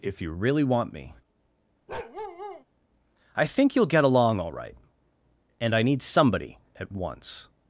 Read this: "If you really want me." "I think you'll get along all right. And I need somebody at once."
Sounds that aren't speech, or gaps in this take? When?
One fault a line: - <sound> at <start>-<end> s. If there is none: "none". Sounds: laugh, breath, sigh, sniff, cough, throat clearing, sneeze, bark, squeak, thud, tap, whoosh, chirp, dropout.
- bark at 1.9-2.6 s